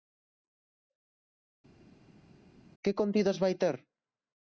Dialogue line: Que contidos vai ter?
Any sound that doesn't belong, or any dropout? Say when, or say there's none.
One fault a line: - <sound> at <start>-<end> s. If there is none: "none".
none